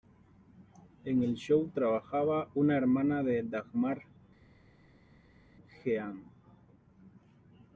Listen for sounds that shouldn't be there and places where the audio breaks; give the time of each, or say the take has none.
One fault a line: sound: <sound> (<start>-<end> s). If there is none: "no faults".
no faults